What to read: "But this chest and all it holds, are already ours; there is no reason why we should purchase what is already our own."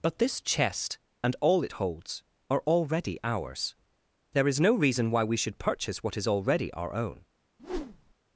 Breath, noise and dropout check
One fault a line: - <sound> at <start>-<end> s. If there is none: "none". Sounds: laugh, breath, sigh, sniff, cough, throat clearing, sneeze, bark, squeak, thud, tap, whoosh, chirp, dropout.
- whoosh at 7.6-8.1 s